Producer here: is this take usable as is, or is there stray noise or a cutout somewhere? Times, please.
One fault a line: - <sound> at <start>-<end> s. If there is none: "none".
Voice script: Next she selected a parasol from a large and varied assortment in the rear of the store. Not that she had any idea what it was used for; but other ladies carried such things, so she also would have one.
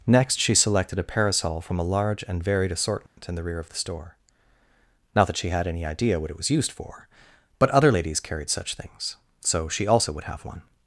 - dropout at 3.1-3.2 s